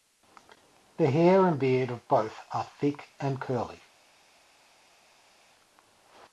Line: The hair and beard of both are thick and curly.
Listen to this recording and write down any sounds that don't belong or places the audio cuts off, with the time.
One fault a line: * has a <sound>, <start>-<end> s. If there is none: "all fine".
all fine